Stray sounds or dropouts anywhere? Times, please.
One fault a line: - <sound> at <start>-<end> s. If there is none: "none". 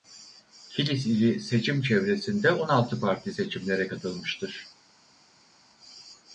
none